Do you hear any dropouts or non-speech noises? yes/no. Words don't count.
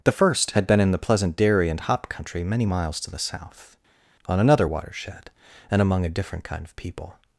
no